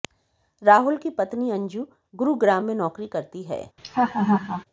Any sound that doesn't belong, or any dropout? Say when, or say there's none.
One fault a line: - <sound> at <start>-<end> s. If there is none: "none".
- laugh at 3.8-4.6 s